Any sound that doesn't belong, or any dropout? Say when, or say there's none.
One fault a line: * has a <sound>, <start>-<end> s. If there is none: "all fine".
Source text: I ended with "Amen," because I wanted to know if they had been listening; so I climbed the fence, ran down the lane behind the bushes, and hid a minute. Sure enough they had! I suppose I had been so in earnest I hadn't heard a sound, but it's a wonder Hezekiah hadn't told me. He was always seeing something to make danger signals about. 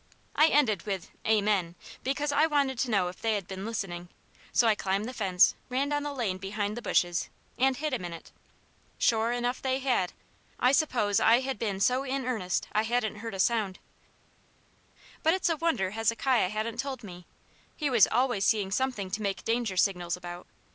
all fine